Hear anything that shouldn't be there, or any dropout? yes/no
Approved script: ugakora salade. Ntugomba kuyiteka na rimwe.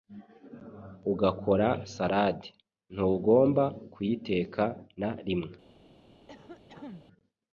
yes